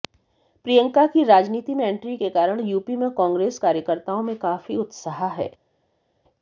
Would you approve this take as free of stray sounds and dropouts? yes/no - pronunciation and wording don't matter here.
yes